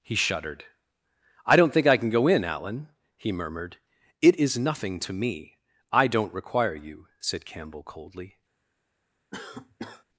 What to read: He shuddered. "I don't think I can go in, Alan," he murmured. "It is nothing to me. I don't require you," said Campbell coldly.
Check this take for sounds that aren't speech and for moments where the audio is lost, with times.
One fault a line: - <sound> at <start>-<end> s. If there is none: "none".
- cough at 9.3-10.0 s